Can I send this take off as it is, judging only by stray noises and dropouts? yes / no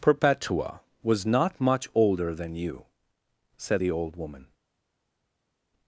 yes